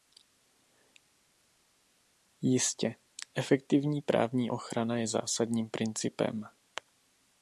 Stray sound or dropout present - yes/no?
no